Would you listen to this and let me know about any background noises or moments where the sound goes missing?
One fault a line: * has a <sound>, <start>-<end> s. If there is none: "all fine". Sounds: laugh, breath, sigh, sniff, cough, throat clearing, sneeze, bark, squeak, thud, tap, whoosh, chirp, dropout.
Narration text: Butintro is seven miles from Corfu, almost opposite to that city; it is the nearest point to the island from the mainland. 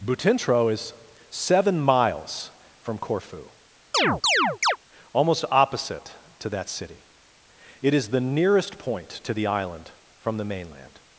* has a chirp, 3.9-4.8 s